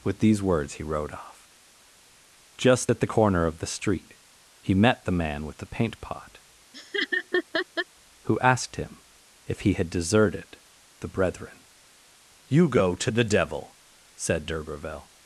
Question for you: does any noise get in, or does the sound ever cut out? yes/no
yes